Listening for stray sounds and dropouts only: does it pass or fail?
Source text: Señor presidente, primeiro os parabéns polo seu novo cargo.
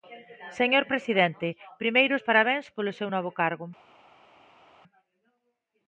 pass